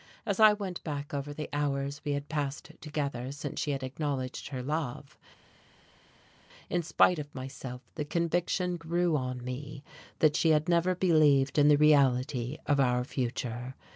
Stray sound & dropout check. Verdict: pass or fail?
pass